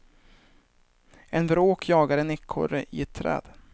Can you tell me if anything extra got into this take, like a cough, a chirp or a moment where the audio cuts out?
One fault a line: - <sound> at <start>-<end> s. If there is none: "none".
none